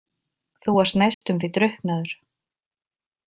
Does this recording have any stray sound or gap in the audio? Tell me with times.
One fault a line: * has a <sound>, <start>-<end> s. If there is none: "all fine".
* has a dropout, 1.1-1.2 s